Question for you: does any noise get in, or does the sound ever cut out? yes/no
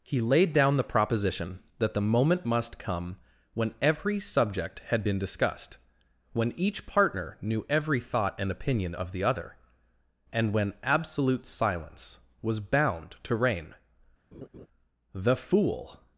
yes